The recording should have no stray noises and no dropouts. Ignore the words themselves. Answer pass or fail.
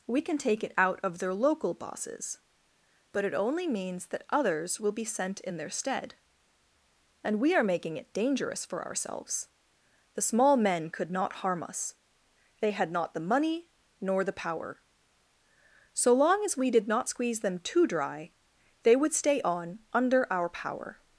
pass